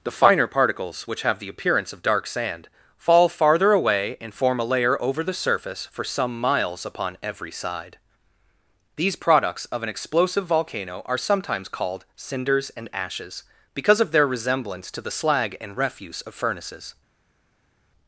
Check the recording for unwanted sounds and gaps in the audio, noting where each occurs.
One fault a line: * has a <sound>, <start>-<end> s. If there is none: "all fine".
all fine